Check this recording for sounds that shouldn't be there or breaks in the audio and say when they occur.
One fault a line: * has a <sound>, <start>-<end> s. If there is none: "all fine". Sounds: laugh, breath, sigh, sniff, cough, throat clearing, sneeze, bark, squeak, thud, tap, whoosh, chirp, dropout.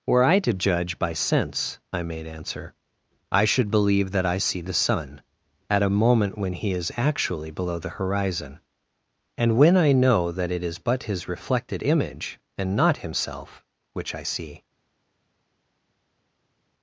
all fine